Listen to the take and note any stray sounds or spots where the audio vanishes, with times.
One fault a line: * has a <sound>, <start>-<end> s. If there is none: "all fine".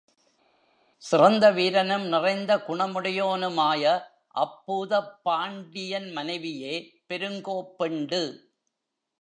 all fine